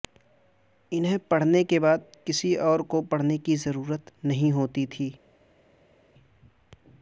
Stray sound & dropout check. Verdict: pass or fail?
pass